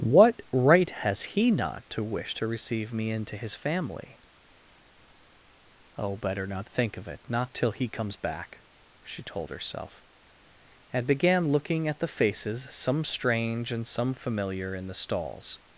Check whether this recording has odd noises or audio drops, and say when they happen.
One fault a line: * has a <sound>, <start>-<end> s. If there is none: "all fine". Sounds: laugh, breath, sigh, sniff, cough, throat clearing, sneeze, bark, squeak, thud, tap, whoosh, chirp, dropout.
all fine